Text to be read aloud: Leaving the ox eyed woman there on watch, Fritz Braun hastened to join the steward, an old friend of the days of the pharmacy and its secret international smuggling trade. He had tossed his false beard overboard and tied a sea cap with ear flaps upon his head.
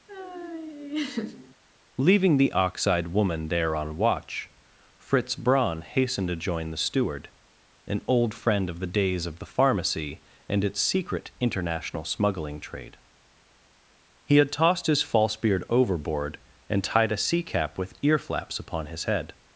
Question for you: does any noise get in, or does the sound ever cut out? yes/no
yes